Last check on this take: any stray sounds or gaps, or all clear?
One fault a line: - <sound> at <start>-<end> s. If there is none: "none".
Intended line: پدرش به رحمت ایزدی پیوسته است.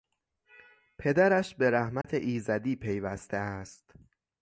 - dropout at 2.0-2.0 s